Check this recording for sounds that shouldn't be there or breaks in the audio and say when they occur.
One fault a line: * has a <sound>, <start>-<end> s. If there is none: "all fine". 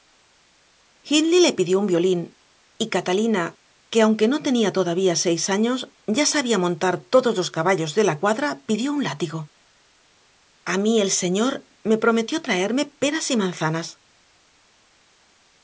all fine